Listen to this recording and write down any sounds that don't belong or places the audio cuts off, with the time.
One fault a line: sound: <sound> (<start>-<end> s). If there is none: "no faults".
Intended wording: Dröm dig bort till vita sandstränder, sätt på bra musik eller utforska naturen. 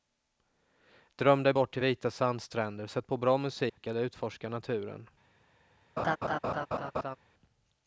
sound: dropout (3.7-3.8 s)
sound: laugh (6.0-7.2 s)